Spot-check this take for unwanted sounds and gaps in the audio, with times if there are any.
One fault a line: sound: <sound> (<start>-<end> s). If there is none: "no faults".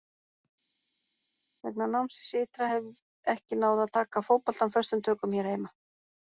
no faults